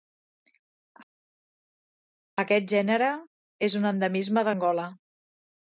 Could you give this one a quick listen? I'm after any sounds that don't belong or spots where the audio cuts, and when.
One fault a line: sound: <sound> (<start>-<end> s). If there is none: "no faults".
no faults